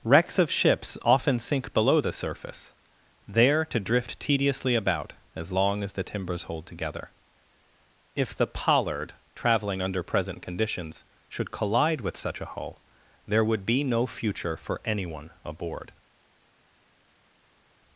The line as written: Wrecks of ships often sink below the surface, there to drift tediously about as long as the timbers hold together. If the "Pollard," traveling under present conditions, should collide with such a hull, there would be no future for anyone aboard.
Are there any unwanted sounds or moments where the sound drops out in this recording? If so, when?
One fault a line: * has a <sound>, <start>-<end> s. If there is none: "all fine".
all fine